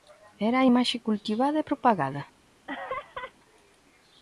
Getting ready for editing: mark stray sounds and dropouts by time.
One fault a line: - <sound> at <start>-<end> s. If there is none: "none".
- laugh at 2.7-3.3 s